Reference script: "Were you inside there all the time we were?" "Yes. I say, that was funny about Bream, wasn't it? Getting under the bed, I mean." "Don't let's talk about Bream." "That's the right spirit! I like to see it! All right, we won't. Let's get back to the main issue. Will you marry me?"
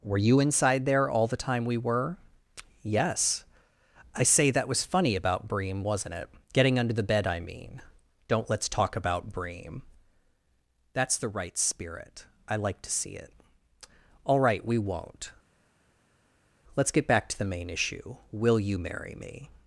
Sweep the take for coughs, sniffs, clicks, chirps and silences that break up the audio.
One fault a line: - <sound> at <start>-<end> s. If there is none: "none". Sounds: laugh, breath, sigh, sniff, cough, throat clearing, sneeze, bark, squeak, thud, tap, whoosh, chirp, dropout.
none